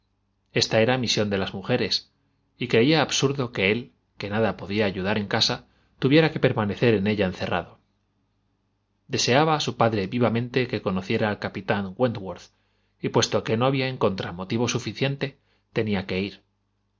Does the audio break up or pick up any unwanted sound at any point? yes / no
no